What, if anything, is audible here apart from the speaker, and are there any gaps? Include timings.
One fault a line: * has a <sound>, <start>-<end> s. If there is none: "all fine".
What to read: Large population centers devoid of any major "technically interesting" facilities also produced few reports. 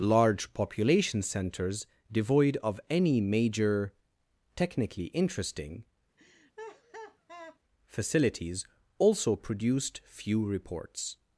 * has a laugh, 6.2-7.6 s